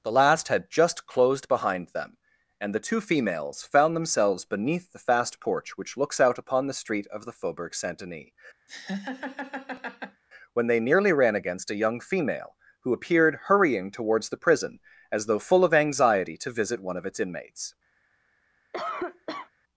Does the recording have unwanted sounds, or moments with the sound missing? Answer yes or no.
yes